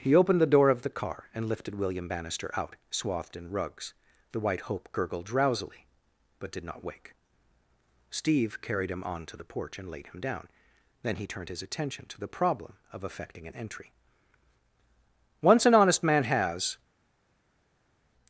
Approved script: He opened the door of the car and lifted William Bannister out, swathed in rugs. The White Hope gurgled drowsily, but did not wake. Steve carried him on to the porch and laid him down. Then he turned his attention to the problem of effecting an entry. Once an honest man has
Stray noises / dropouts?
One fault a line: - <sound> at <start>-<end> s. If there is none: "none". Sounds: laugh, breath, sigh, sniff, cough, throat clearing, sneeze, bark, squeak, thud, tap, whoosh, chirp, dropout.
none